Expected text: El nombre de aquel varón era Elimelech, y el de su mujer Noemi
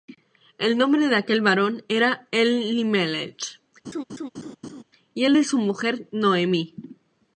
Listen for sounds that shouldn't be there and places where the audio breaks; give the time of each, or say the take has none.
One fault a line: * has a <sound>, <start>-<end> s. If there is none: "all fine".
* has a laugh, 3.8-4.8 s